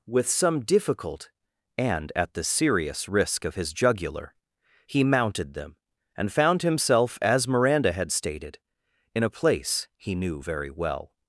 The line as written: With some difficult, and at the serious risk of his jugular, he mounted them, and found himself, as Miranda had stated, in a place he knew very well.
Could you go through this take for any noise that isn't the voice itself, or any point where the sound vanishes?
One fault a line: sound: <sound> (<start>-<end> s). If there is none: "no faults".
no faults